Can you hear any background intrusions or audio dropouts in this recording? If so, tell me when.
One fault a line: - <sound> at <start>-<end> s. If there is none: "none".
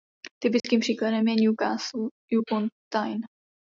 - dropout at 0.6-0.6 s